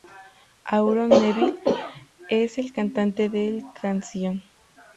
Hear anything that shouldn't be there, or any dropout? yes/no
no